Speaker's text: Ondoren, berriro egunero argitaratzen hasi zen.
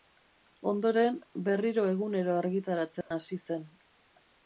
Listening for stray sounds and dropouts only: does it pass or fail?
fail